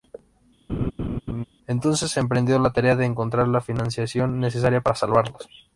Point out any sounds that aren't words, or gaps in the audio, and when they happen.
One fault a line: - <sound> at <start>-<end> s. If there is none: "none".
- laugh at 0.7-1.4 s